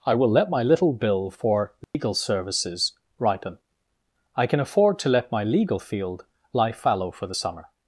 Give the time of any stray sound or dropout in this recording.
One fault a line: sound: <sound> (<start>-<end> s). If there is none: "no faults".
sound: dropout (1.8-1.9 s)